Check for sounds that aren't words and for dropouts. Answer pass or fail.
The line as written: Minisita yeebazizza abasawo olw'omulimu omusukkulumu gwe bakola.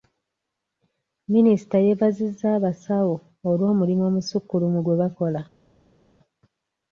pass